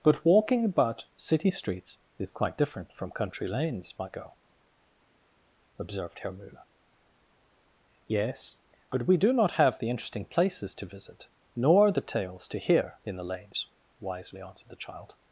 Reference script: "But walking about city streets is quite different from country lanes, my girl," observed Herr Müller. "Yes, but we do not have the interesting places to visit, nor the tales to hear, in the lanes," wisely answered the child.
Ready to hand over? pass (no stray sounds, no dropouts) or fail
pass